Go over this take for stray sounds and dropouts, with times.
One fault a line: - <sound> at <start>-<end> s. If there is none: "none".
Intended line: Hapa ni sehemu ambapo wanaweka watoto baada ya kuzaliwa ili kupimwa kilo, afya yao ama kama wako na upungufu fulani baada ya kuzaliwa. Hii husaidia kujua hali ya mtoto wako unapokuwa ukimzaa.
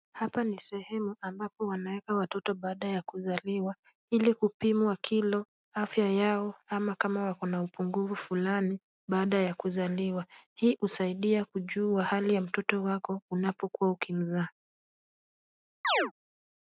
- chirp at 15.8-16.1 s